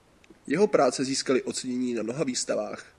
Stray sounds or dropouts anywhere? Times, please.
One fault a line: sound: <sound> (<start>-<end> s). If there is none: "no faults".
no faults